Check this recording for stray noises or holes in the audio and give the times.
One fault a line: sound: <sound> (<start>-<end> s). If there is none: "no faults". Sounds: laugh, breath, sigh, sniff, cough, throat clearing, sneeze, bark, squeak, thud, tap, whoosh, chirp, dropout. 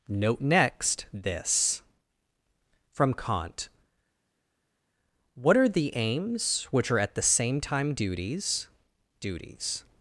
no faults